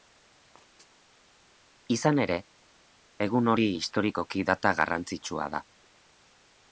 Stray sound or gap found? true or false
false